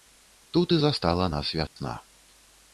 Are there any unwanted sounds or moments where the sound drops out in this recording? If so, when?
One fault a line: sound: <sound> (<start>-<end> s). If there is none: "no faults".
sound: dropout (1.7-1.8 s)